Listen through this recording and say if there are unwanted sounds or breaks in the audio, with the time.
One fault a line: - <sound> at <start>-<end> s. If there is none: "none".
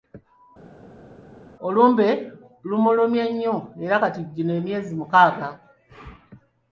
none